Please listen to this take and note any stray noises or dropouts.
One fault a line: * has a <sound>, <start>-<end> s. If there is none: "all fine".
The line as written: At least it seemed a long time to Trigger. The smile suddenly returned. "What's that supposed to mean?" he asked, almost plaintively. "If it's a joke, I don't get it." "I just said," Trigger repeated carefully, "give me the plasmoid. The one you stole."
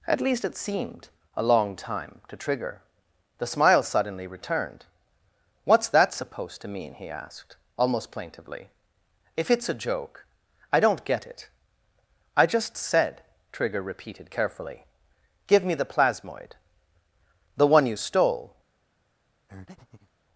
* has a breath, 19.5-20.1 s